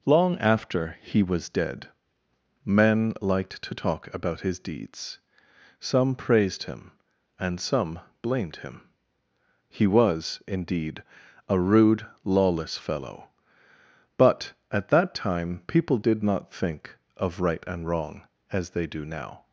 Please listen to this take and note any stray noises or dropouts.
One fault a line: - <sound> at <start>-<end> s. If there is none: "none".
none